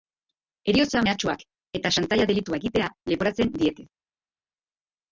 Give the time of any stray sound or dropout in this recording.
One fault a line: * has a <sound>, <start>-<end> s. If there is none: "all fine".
all fine